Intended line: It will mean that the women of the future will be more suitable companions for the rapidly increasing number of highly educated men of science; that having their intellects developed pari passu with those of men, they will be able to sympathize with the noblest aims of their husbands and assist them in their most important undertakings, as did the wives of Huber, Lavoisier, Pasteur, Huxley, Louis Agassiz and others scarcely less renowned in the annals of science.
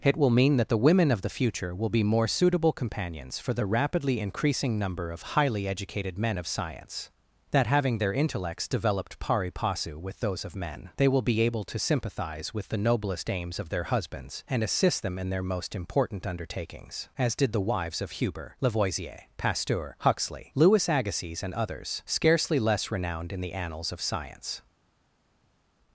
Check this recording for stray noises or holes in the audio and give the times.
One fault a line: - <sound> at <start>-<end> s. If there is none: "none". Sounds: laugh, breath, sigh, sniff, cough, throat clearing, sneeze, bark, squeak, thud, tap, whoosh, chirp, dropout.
none